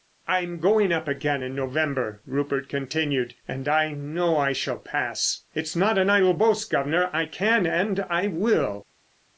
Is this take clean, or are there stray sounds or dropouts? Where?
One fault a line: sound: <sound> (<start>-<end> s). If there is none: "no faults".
no faults